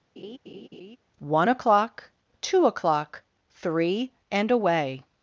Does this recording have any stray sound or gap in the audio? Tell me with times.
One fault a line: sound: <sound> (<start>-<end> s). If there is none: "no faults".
sound: laugh (0.2-1.0 s)